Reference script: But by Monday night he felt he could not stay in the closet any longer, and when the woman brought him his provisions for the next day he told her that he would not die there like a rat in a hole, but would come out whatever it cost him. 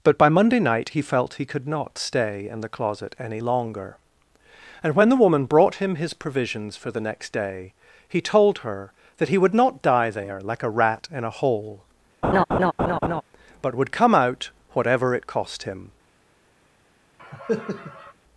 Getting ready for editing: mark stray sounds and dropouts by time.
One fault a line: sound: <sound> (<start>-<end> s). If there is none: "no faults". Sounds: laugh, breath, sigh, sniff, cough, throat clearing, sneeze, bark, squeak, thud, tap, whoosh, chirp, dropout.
sound: laugh (12.2-13.2 s)
sound: cough (17.2-18.1 s)